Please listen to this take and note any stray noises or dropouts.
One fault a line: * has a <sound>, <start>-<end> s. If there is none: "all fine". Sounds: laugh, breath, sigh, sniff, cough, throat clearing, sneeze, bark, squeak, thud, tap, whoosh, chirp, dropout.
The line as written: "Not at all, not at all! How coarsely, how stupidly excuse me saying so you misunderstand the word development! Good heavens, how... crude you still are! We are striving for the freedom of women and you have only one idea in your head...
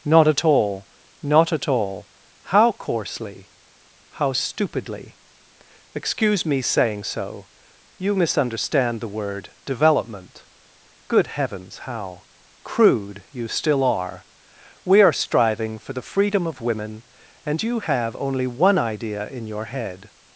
all fine